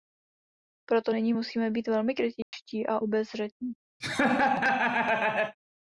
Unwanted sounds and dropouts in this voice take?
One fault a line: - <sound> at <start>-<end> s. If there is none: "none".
- dropout at 2.4-2.5 s
- laugh at 4.0-5.6 s